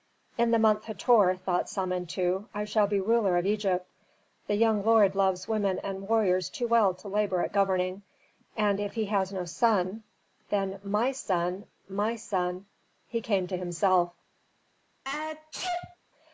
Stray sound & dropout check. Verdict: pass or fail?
fail